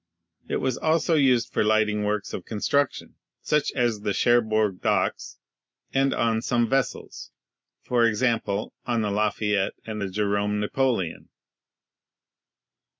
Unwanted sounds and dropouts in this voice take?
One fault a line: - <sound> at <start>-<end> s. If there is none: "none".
none